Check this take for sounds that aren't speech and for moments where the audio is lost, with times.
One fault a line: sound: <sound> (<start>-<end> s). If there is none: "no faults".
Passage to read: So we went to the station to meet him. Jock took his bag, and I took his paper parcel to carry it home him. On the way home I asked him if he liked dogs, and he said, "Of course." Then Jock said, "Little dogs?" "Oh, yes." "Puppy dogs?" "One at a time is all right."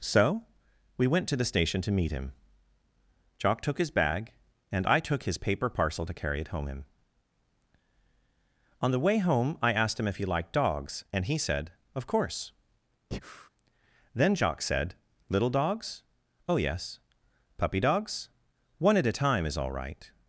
sound: breath (13.1-13.5 s)